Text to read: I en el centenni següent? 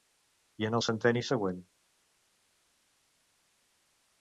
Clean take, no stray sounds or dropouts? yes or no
yes